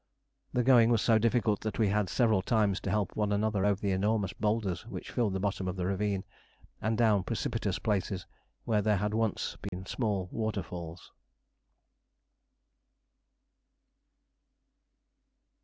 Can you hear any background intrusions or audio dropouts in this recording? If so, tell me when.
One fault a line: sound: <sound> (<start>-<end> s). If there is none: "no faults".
sound: dropout (9.7-9.7 s)